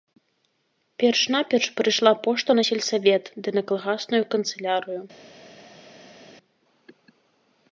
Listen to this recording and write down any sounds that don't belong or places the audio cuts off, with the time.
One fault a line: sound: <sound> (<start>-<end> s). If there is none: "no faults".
no faults